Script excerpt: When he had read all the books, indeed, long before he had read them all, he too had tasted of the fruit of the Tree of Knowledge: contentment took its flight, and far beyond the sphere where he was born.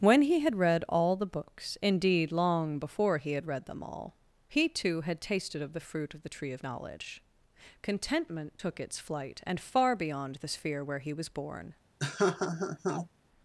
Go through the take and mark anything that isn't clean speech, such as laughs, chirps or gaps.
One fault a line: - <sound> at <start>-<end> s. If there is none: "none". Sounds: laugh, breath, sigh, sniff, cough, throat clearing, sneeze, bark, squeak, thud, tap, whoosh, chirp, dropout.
- laugh at 12.0-13.1 s